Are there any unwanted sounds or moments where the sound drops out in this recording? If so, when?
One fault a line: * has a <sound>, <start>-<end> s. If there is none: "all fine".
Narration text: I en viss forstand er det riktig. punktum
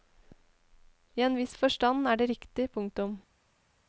all fine